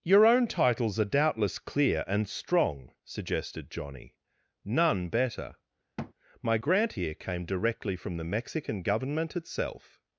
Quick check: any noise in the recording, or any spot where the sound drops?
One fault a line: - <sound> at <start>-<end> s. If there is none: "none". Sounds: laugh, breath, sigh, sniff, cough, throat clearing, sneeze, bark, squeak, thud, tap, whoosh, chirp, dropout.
- thud at 6.0-6.1 s